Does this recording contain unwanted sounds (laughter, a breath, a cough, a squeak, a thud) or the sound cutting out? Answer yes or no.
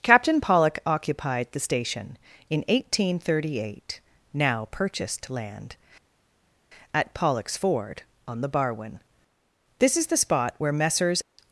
no